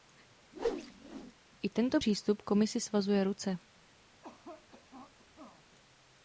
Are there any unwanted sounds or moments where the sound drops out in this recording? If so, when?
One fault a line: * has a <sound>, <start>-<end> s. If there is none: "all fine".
* has a whoosh, 0.5-1.3 s
* has a cough, 4.2-5.7 s